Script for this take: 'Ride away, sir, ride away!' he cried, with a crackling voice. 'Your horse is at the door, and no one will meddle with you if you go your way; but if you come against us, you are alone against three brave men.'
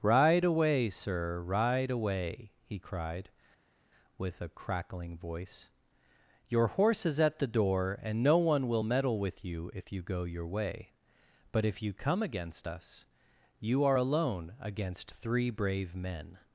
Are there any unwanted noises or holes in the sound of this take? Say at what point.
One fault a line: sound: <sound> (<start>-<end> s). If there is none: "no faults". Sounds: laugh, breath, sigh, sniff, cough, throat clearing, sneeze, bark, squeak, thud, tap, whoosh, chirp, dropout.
no faults